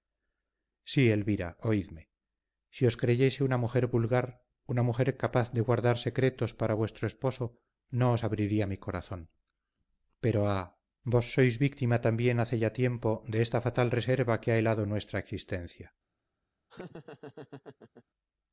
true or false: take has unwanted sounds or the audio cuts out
true